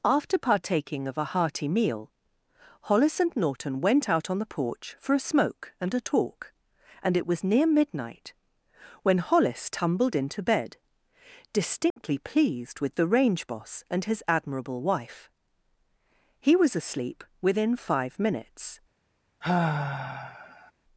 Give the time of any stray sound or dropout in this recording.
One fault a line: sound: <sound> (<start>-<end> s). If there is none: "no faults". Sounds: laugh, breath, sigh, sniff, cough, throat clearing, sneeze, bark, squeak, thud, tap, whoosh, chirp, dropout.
sound: dropout (11.9-12.0 s)
sound: sigh (19.4-20.7 s)